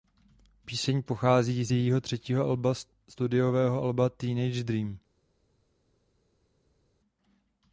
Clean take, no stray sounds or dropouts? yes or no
yes